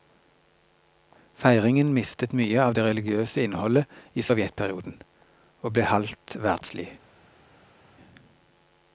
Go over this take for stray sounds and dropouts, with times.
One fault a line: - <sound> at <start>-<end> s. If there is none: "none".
none